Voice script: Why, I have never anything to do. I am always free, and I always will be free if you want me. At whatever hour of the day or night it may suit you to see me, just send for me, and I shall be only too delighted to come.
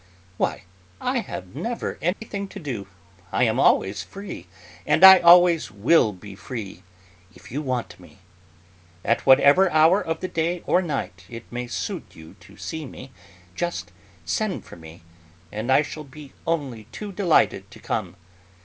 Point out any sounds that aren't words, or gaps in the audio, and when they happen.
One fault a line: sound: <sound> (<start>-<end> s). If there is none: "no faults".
sound: dropout (2.1-2.2 s)